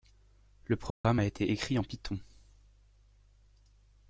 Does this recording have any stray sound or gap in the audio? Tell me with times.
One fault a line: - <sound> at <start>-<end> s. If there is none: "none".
- dropout at 0.9-1.0 s